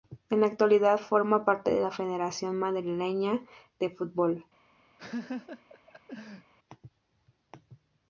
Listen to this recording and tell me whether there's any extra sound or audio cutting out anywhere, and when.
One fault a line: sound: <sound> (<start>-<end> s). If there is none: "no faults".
sound: laugh (5.0-6.5 s)